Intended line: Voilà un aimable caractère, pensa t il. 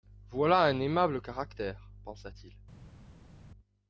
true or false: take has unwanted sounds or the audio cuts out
false